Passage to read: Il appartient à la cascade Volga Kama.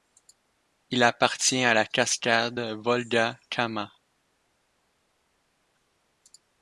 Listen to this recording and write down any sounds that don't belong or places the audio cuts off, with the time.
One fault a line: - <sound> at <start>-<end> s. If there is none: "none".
none